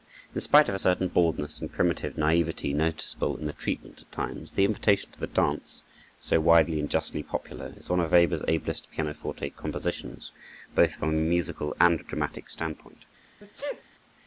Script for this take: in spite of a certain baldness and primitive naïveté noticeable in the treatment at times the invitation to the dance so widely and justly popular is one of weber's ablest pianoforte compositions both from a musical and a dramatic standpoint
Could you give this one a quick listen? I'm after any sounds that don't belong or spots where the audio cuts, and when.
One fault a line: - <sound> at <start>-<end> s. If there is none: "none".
- sneeze at 13.4-13.8 s